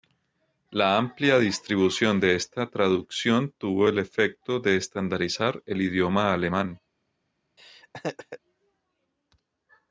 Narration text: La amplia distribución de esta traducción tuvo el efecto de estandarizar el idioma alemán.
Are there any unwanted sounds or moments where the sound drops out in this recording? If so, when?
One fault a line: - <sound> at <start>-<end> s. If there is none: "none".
- laugh at 7.6-8.4 s